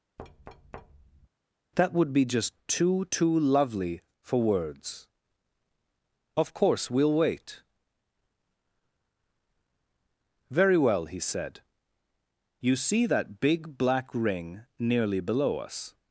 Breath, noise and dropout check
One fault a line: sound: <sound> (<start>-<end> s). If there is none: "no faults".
sound: thud (0.2-1.3 s)